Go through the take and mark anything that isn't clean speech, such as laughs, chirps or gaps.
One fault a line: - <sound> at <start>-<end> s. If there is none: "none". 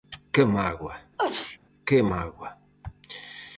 - sneeze at 1.2-1.6 s